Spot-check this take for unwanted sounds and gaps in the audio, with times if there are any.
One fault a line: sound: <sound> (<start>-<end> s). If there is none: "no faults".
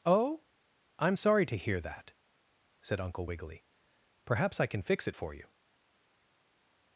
no faults